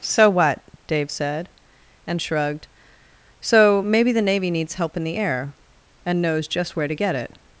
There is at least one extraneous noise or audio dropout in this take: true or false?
false